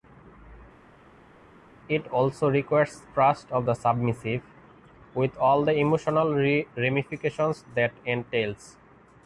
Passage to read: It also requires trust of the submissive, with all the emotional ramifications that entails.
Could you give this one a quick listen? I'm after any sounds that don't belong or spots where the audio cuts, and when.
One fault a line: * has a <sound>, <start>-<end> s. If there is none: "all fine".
all fine